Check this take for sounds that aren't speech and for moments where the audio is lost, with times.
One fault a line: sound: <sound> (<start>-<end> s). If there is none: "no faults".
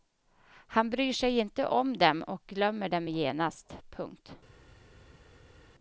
no faults